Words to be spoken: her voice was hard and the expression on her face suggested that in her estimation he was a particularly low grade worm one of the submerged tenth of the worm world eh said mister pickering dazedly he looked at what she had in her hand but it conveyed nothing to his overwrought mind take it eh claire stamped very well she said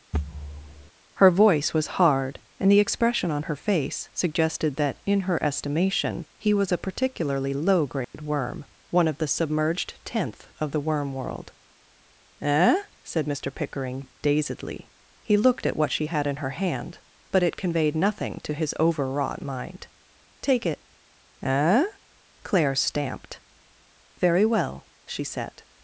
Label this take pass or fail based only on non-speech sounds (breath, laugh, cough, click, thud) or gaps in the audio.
fail